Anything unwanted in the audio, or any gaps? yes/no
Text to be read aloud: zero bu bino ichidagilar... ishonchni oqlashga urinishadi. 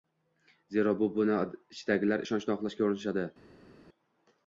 no